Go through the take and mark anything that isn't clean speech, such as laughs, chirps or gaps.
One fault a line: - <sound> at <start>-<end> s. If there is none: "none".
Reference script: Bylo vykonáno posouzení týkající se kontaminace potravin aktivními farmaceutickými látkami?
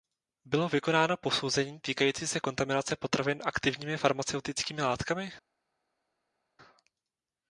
none